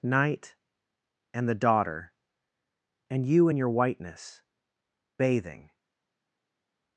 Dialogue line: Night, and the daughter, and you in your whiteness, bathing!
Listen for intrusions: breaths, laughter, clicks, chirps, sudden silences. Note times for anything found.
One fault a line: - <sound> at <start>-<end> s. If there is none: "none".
none